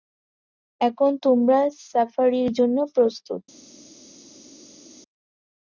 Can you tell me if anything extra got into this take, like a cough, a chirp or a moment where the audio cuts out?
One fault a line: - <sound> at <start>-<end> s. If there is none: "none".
none